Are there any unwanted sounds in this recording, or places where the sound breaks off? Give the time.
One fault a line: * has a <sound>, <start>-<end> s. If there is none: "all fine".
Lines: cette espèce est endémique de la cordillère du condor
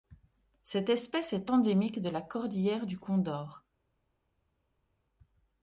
all fine